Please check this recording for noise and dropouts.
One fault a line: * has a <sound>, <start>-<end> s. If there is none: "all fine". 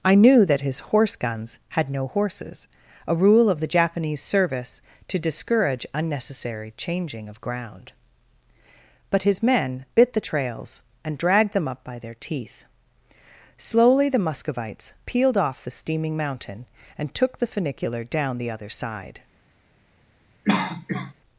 * has a cough, 20.4-21.1 s